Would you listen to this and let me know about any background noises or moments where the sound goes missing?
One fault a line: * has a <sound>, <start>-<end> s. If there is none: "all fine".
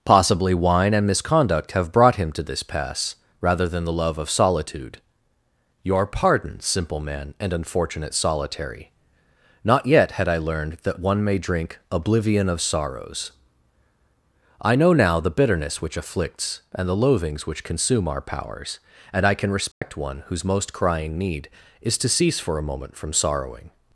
* has a dropout, 19.7-19.8 s